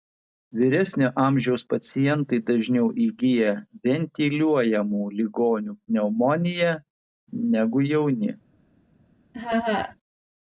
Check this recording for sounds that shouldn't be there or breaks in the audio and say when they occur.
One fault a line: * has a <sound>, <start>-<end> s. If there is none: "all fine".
* has a laugh, 9.3-10.0 s